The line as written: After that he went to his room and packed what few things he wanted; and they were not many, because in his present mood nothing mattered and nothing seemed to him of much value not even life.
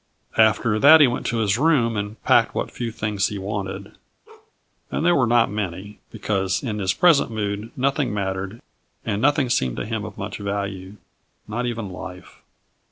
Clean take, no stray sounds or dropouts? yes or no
no